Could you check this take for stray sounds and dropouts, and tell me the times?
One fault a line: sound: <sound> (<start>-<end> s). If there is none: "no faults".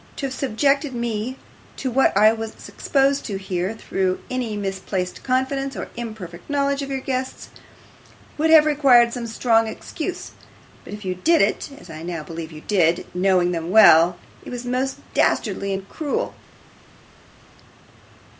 no faults